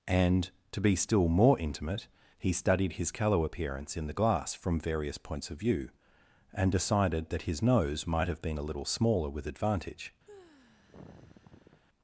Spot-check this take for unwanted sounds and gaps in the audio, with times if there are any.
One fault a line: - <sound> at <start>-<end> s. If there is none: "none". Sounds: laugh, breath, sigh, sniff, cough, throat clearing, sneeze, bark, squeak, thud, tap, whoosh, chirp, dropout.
- sigh at 10.3-11.8 s